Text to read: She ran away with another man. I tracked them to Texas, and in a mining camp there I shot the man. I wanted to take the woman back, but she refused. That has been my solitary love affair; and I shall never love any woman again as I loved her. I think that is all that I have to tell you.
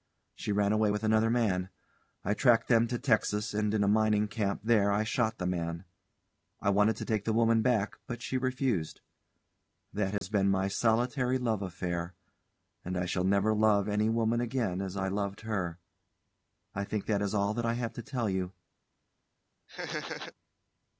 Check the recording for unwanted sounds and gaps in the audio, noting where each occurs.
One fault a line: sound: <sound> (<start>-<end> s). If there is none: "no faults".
sound: dropout (10.2-10.2 s)
sound: laugh (19.7-20.3 s)